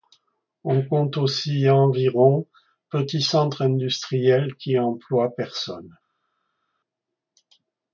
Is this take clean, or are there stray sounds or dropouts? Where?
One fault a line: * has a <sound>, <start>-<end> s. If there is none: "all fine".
all fine